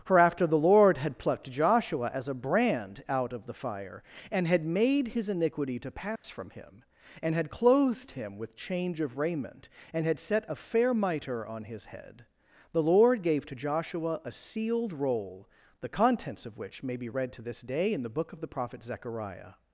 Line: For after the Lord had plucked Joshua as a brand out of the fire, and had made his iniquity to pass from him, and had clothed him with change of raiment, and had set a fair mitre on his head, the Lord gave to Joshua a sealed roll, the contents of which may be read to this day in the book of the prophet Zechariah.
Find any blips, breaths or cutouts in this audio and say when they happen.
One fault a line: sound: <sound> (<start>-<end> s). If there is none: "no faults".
sound: dropout (6.2-6.2 s)